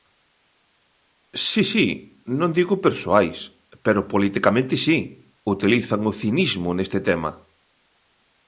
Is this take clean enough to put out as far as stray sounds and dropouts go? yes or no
yes